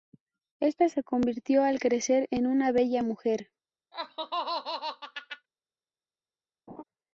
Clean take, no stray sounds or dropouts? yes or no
no